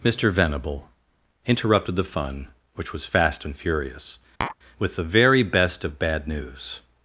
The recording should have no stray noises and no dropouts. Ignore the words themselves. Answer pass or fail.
fail